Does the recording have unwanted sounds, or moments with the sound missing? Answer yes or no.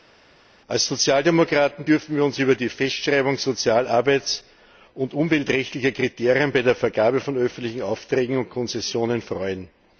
no